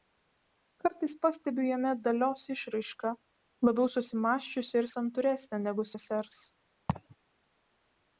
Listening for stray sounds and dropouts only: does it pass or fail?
fail